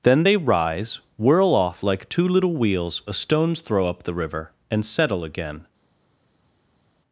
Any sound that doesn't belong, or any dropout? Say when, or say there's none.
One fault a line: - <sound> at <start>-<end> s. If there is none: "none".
none